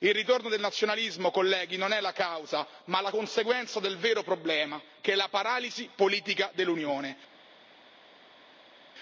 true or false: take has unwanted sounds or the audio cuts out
false